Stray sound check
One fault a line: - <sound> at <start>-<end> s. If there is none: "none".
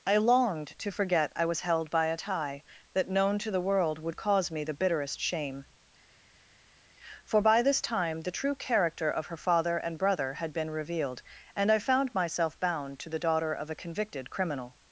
none